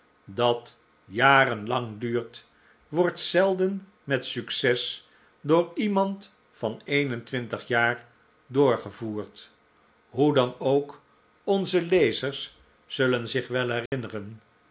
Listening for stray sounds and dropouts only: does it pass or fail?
fail